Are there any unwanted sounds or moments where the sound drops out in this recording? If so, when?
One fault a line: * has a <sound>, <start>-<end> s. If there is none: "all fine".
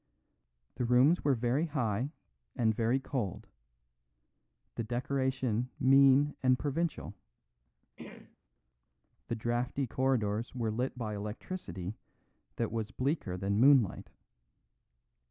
* has a throat clearing, 8.0-8.4 s